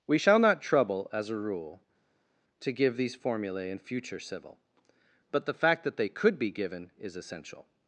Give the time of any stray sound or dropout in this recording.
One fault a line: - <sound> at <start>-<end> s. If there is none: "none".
none